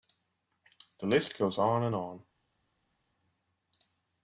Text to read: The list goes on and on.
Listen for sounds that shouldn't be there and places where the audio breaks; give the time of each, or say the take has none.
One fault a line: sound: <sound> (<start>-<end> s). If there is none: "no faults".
no faults